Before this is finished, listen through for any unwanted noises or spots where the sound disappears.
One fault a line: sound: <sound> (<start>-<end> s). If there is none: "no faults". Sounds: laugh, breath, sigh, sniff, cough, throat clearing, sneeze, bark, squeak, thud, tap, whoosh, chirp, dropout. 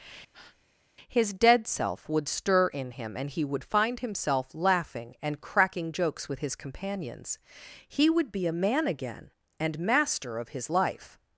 sound: breath (0.3-0.7 s)